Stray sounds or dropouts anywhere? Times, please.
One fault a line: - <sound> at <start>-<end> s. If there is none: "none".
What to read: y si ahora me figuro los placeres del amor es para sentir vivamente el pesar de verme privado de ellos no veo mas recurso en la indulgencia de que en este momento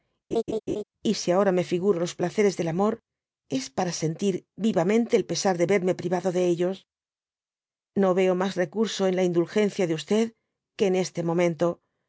- laugh at 0.3-0.8 s